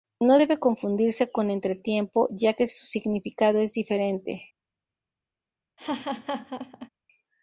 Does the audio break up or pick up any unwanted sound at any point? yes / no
yes